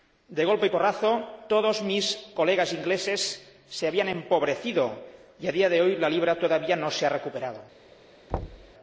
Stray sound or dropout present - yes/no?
yes